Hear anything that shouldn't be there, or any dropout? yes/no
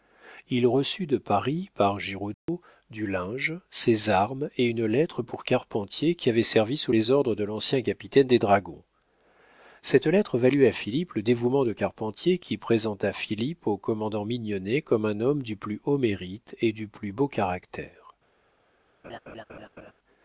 yes